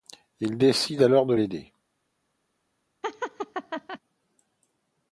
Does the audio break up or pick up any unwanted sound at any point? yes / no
yes